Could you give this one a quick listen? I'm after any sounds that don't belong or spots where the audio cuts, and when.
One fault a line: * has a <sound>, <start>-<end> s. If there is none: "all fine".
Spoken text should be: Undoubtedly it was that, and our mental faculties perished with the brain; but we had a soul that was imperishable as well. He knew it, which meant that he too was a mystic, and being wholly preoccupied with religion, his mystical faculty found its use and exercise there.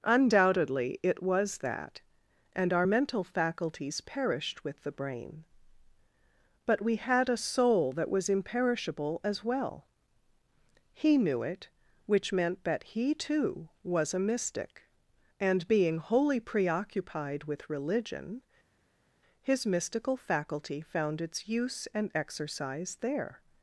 all fine